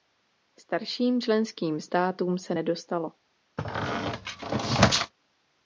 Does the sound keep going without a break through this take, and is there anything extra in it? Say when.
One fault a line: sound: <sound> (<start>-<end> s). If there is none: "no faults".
sound: squeak (3.6-5.1 s)